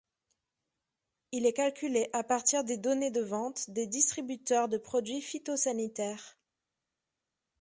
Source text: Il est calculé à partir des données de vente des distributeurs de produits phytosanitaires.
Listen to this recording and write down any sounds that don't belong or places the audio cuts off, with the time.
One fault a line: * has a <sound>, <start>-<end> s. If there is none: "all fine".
all fine